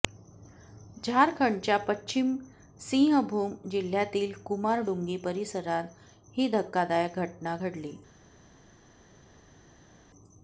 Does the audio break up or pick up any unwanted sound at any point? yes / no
no